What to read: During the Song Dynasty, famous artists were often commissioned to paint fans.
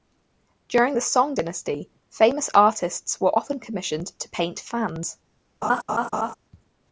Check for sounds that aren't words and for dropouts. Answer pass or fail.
fail